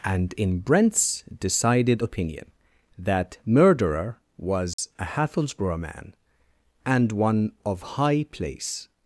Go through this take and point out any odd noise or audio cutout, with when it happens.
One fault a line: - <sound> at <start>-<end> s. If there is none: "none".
- dropout at 4.7-4.8 s